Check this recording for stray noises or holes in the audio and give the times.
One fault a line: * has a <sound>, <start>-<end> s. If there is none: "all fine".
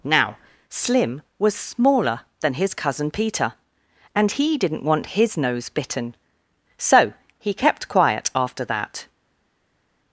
all fine